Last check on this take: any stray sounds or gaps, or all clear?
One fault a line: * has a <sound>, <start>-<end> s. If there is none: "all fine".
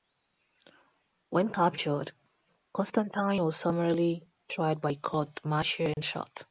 * has a dropout, 5.9-6.0 s